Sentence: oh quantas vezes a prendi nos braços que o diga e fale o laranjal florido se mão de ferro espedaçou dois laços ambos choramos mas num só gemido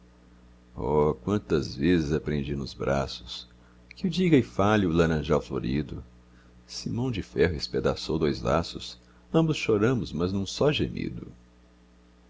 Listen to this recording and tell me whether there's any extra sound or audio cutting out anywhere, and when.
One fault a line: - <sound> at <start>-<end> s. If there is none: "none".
none